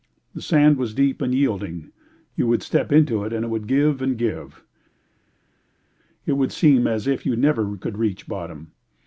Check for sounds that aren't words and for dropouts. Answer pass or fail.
pass